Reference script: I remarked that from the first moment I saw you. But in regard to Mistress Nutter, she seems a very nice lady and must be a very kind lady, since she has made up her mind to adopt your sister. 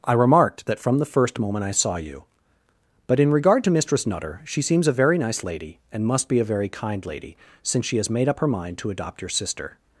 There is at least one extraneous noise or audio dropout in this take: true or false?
false